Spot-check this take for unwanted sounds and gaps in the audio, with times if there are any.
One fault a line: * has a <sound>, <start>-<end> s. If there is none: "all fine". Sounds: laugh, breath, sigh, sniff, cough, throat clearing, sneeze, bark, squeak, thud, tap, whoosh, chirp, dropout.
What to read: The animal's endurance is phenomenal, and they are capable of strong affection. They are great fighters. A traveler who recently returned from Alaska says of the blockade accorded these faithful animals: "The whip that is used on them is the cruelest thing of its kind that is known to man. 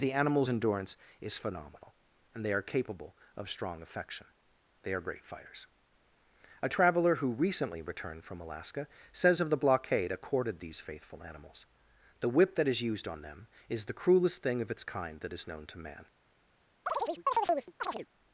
* has a chirp, 16.9-18.1 s